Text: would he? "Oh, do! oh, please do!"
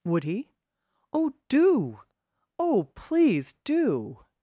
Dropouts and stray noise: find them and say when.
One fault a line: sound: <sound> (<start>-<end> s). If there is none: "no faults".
no faults